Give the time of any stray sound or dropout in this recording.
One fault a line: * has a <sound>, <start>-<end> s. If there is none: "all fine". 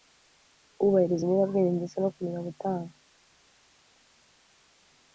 all fine